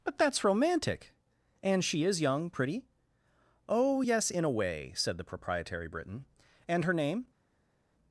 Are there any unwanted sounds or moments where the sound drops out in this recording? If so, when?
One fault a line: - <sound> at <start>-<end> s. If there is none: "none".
none